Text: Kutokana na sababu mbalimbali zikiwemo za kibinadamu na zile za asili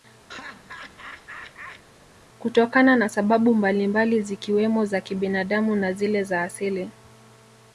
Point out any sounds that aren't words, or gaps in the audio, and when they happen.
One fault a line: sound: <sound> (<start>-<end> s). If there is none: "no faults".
sound: laugh (0.3-1.8 s)